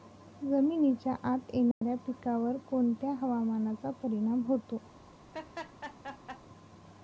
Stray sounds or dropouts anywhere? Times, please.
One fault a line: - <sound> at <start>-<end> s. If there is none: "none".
- dropout at 1.7-1.8 s
- laugh at 5.3-6.4 s